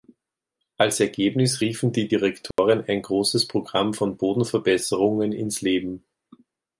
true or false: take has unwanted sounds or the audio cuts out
true